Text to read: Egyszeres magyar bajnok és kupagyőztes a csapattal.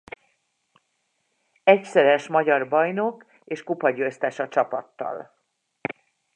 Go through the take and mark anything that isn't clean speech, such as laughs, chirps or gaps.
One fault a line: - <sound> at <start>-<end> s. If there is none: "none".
none